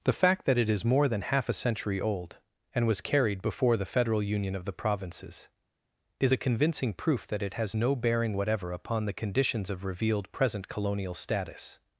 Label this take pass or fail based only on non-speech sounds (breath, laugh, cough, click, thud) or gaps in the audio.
pass